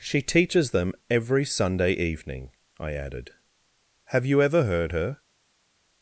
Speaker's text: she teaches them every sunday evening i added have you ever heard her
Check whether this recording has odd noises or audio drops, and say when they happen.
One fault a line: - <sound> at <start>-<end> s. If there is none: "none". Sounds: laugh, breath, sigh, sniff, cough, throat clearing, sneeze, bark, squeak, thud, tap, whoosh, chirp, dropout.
none